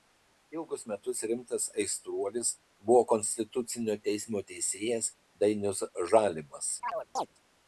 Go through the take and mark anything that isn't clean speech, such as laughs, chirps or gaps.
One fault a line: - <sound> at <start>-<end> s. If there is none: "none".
- chirp at 6.8-7.3 s